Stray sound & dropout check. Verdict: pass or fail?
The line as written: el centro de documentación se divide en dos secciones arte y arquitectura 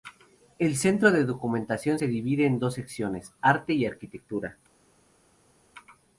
pass